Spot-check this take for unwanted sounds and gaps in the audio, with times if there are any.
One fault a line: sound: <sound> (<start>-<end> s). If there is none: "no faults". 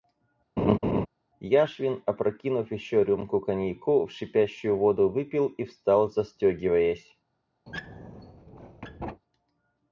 sound: laugh (0.6-1.1 s)
sound: squeak (7.7-9.2 s)